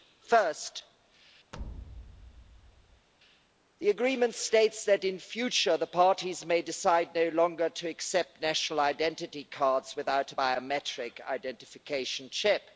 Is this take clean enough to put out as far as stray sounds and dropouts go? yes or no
no